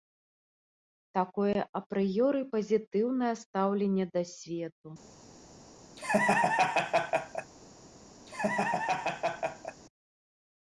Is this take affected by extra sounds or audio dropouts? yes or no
yes